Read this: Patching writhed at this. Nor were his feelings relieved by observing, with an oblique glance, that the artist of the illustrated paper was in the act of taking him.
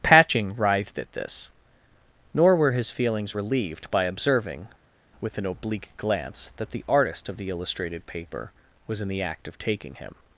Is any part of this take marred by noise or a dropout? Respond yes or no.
no